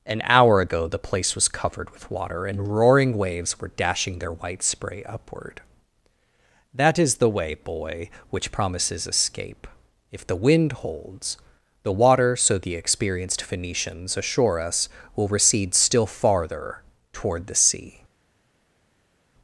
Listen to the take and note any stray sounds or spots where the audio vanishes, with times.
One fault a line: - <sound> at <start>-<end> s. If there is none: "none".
none